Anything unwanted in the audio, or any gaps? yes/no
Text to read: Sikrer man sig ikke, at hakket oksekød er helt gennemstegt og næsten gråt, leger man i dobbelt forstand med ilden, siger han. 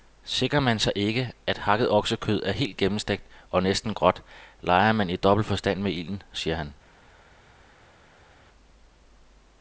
no